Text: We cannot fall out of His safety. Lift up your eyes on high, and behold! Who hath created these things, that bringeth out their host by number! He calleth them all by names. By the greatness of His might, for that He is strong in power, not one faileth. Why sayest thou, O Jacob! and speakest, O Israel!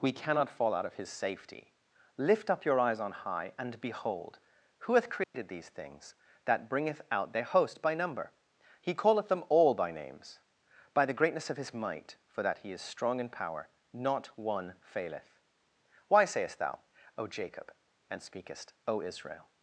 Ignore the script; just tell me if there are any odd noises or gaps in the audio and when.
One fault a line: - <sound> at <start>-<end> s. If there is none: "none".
- dropout at 5.2-5.3 s